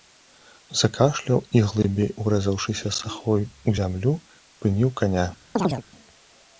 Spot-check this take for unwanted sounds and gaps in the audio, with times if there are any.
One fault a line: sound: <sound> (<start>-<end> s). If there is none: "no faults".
sound: chirp (5.6-5.8 s)